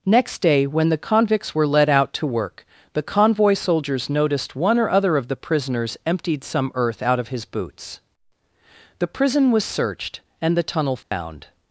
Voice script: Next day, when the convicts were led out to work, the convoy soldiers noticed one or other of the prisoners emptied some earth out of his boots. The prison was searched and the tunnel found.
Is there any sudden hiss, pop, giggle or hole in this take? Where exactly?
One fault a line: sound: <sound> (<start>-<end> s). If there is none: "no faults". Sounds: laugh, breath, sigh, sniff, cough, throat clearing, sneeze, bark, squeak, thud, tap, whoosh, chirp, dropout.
sound: dropout (11.0-11.1 s)